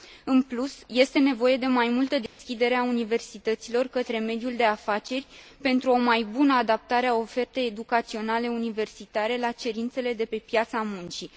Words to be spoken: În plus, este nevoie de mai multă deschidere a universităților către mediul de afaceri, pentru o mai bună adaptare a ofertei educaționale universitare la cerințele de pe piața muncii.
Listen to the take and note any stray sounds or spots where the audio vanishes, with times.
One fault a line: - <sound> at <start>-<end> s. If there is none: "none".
- dropout at 2.3-2.4 s